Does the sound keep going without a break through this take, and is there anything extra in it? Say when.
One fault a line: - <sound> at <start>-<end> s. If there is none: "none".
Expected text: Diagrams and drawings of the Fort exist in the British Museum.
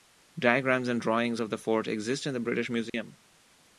- dropout at 2.9-2.9 s